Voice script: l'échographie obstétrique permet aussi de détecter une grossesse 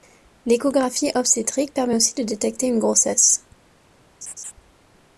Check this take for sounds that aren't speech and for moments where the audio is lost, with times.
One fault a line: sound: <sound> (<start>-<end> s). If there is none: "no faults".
sound: laugh (4.2-4.5 s)